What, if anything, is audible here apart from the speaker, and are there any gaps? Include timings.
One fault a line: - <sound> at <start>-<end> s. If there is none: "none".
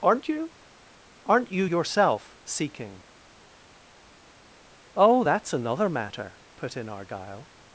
none